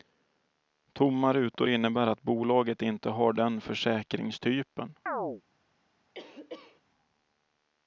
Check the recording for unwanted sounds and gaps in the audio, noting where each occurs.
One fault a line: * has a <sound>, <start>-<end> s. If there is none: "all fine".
* has a chirp, 5.1-5.4 s
* has a cough, 6.1-6.8 s